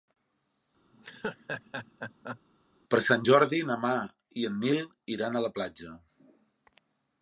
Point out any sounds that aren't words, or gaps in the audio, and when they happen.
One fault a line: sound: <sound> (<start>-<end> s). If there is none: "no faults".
sound: laugh (0.9-2.4 s)